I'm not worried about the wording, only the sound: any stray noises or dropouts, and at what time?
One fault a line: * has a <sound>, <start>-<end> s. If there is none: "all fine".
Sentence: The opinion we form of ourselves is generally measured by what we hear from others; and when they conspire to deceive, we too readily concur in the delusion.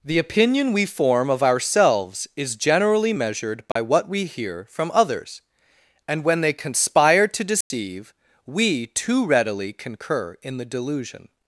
* has a dropout, 3.7-3.8 s
* has a dropout, 7.6-7.7 s